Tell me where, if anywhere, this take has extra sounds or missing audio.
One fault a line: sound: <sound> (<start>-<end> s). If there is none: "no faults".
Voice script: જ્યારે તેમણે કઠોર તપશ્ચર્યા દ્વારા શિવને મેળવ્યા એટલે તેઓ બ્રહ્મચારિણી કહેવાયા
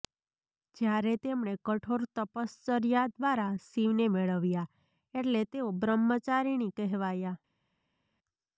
no faults